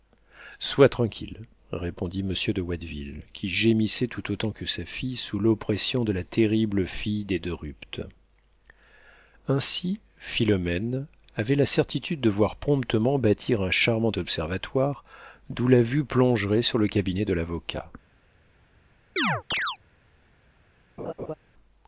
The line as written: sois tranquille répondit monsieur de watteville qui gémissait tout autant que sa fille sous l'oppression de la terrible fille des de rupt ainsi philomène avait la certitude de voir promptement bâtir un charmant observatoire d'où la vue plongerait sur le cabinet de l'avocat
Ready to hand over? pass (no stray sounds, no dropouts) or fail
fail